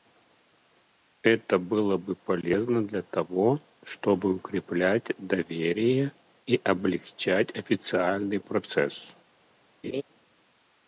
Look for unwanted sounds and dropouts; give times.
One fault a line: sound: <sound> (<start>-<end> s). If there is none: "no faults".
sound: laugh (9.8-10.0 s)